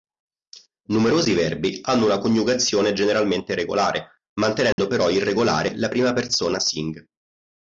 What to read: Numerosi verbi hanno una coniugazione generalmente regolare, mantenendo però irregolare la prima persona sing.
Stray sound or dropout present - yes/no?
yes